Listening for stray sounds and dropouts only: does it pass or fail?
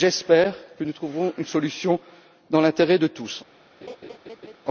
fail